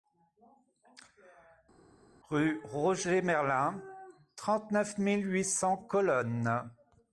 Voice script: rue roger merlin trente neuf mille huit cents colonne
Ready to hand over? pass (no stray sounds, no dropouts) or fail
pass